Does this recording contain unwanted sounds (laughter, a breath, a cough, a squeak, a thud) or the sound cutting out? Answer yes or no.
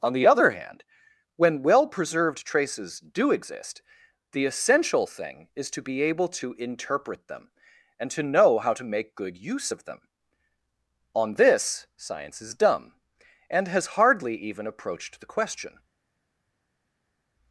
no